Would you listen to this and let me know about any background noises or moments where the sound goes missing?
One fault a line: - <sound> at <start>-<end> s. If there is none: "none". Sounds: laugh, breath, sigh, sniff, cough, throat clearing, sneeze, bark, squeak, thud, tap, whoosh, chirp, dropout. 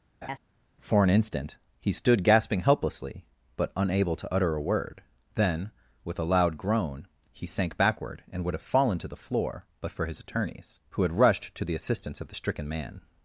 - laugh at 0.2-0.4 s